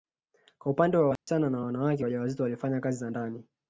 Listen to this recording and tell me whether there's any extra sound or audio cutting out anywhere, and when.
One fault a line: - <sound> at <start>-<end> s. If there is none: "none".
- dropout at 1.2-1.3 s